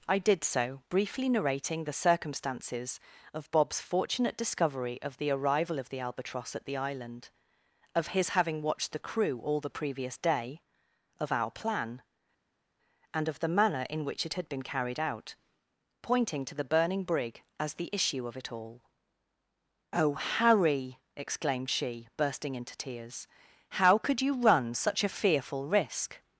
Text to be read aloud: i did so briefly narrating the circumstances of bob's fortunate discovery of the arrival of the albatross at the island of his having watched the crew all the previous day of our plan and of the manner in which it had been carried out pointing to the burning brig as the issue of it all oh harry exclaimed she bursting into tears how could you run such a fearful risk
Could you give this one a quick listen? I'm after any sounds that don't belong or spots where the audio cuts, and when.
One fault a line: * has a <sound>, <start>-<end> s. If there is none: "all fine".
all fine